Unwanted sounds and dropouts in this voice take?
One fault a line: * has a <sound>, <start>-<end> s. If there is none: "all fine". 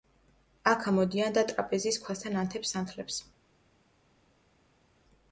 all fine